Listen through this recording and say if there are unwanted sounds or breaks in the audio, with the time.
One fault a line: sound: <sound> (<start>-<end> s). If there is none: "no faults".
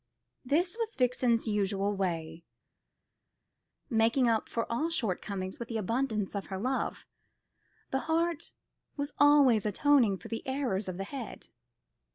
no faults